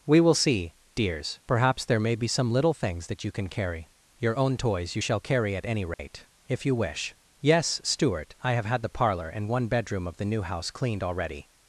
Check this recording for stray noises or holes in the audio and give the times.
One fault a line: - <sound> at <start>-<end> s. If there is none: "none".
- dropout at 5.9-6.0 s